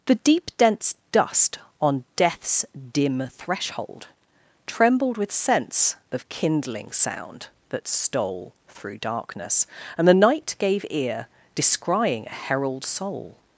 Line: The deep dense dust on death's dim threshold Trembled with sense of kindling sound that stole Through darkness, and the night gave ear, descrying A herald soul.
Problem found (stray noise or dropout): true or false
false